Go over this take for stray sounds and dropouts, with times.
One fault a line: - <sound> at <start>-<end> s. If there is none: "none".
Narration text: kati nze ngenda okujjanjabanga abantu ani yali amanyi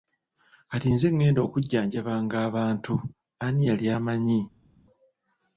none